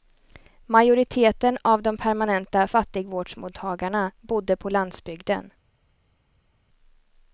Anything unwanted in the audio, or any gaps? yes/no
no